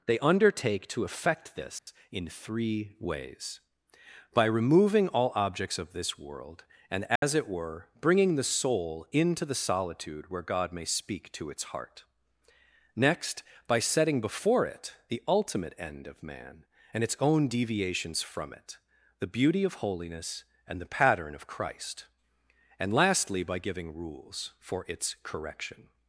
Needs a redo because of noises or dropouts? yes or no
yes